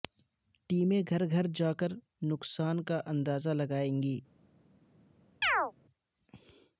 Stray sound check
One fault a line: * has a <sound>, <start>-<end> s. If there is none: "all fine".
* has a chirp, 5.4-5.7 s